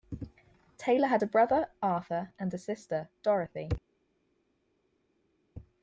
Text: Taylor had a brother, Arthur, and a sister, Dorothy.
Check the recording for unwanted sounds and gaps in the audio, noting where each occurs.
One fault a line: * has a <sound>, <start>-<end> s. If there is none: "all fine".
all fine